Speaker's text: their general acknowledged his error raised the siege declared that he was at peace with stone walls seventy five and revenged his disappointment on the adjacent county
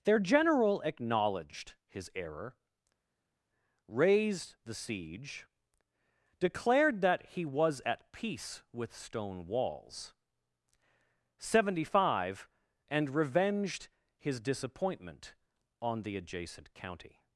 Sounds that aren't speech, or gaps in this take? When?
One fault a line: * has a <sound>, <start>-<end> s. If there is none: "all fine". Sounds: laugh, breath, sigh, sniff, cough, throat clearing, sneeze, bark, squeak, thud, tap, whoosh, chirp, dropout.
all fine